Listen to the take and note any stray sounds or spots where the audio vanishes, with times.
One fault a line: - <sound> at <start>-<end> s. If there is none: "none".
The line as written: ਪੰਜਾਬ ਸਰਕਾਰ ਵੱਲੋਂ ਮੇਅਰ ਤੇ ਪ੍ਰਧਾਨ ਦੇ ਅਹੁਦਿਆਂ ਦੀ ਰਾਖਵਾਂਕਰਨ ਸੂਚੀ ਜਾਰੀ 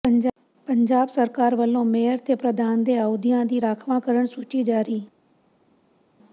none